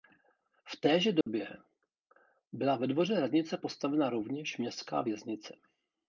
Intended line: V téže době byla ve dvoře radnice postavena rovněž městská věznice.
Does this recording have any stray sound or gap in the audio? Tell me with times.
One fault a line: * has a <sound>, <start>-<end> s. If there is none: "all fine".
* has a dropout, 1.2-1.3 s